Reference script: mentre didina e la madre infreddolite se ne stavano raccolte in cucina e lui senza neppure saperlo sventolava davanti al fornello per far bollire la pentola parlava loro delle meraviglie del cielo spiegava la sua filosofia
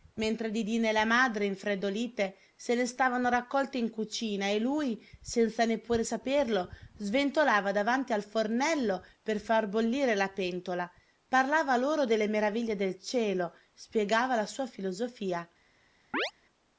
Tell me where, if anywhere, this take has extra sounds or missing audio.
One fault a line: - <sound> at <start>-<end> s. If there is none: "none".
- chirp at 16.1-16.3 s